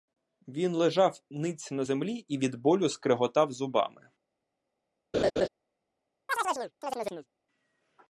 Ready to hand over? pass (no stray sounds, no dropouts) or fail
fail